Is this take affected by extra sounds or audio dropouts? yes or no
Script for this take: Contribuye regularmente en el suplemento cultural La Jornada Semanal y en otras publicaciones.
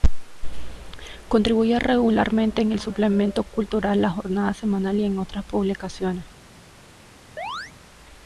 yes